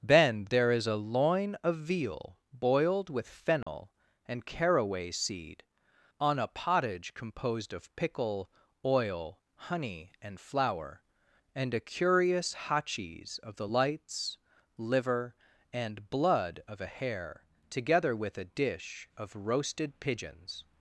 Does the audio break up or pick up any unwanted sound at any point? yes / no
yes